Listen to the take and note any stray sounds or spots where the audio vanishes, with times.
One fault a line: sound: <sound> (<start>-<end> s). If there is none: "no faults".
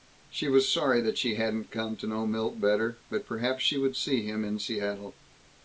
no faults